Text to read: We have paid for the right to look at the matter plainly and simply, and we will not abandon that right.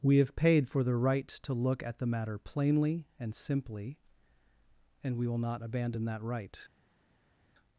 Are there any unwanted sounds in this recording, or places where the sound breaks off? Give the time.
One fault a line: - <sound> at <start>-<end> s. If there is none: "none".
none